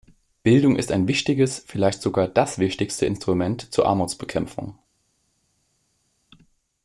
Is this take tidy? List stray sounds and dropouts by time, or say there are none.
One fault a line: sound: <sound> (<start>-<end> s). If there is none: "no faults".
no faults